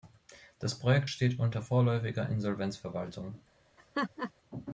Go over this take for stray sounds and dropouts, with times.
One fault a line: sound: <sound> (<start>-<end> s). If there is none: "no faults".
sound: laugh (3.8-4.3 s)